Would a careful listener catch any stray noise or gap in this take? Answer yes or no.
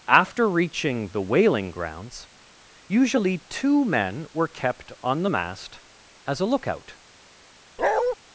yes